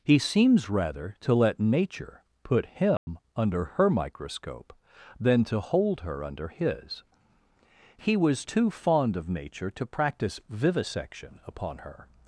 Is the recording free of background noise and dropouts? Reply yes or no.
no